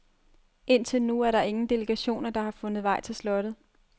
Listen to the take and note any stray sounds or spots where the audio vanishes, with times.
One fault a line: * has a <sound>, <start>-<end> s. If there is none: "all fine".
all fine